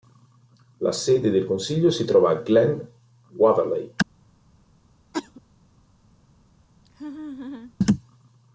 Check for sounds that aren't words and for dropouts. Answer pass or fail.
fail